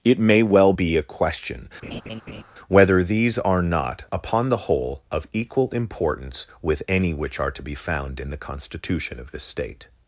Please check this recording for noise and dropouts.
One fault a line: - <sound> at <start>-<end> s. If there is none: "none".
- laugh at 1.8-2.4 s